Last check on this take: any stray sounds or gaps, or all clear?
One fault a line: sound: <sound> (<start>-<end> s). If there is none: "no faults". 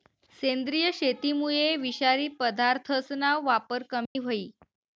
sound: dropout (4.1-4.2 s)